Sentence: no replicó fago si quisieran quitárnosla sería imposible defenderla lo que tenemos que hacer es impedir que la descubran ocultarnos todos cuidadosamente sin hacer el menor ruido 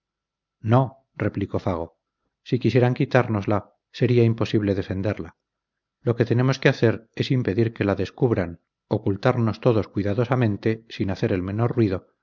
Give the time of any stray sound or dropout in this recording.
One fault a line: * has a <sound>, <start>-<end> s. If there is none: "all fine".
all fine